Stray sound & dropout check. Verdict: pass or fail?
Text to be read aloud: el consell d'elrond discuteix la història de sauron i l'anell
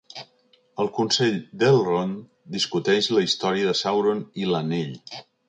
pass